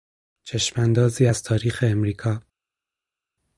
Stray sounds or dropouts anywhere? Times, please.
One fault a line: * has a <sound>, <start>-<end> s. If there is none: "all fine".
all fine